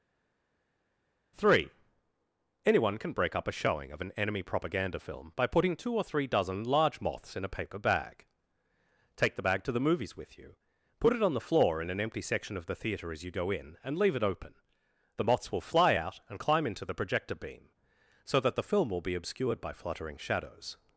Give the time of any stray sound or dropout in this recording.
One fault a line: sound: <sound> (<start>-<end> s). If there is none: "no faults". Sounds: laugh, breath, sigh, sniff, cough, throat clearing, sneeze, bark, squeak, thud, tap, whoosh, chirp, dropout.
no faults